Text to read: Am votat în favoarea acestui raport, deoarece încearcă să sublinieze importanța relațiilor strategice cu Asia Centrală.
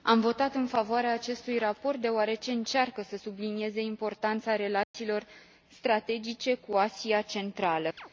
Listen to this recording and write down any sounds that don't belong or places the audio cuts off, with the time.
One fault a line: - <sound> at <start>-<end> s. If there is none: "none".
- dropout at 4.8-4.9 s
- chirp at 8.0-8.1 s